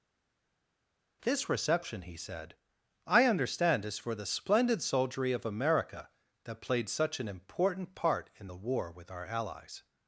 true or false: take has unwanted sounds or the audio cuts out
false